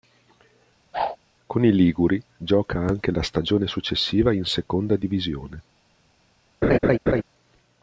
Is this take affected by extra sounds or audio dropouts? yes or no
yes